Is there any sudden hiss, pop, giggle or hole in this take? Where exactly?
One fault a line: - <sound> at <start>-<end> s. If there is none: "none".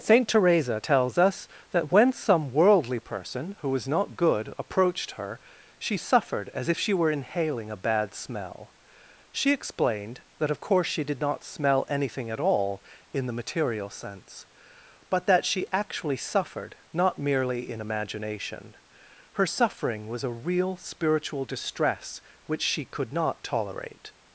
none